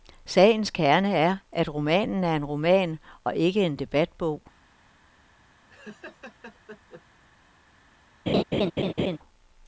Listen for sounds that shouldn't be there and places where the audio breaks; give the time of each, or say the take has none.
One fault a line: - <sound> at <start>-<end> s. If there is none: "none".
- laugh at 5.7-7.0 s
- laugh at 8.3-9.2 s